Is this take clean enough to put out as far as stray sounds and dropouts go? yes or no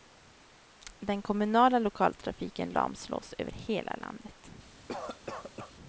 no